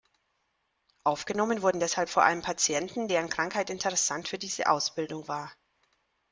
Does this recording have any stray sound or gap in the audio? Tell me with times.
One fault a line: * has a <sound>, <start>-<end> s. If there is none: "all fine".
all fine